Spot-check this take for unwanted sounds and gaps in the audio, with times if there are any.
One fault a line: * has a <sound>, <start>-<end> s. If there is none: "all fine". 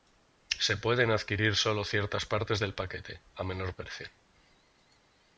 all fine